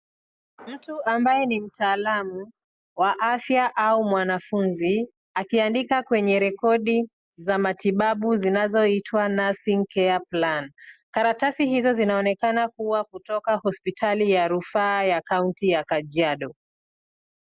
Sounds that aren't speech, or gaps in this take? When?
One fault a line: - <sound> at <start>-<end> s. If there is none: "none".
none